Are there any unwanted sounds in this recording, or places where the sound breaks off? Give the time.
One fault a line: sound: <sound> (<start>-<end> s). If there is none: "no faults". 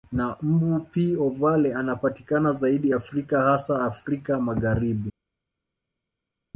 no faults